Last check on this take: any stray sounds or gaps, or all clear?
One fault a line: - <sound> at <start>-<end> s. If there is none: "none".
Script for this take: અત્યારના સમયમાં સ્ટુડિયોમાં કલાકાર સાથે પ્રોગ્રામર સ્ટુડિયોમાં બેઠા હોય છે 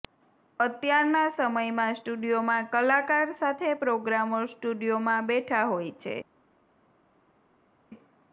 none